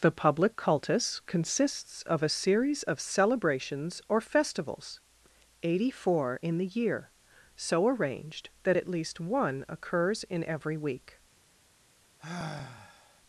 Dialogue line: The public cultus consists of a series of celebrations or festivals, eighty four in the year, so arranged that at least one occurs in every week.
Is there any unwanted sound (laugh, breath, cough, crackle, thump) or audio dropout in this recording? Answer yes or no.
yes